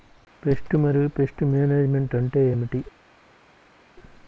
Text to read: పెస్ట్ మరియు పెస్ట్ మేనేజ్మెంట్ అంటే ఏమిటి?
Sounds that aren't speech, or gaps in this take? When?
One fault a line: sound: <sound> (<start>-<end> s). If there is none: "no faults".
no faults